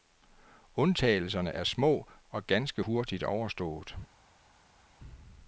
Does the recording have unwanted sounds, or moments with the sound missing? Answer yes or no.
no